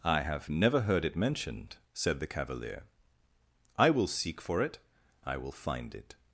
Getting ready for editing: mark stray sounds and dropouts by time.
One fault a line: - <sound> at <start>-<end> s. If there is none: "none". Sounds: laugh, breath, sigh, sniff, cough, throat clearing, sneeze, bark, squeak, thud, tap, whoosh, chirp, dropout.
none